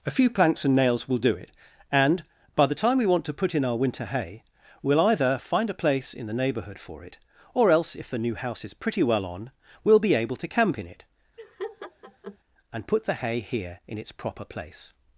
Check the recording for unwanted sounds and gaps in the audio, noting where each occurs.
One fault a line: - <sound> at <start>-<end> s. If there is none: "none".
- laugh at 11.4-12.4 s